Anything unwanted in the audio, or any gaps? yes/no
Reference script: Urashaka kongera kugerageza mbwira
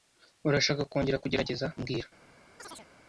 yes